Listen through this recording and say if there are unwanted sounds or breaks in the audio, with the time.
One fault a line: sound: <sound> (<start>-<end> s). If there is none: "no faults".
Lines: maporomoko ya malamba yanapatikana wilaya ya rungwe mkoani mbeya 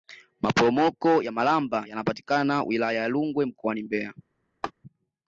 sound: laugh (4.6-4.7 s)